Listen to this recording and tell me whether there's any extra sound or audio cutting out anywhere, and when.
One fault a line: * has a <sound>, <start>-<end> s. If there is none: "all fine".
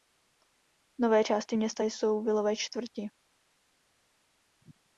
all fine